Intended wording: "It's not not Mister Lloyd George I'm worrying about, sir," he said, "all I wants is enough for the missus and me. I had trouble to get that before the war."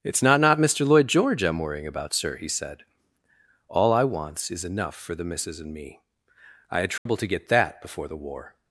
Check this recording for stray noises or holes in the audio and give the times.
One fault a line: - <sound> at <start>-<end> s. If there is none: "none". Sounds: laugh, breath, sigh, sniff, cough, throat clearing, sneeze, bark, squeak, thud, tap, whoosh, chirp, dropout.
- dropout at 7.0-7.1 s